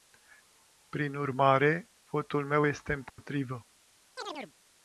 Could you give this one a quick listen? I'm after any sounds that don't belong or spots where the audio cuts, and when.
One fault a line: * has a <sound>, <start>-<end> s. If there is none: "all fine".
* has a dropout, 3.1-3.2 s
* has a chirp, 4.2-4.5 s